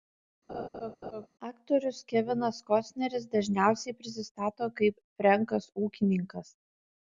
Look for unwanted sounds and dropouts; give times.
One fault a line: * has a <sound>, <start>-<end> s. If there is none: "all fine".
* has a laugh, 0.5-1.3 s